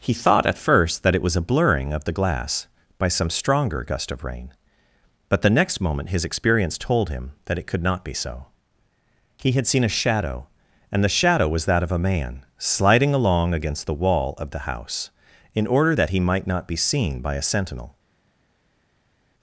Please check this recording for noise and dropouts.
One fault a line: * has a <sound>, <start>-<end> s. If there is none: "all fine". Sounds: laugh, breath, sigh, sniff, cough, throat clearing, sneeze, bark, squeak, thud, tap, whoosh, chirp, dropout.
all fine